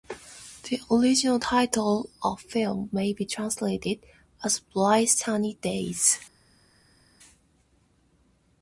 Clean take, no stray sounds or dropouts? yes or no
yes